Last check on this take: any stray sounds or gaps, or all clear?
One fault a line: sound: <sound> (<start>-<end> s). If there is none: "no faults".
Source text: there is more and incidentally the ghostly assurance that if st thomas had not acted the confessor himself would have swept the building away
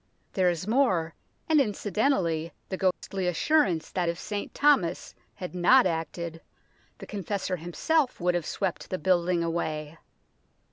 sound: dropout (2.9-3.0 s)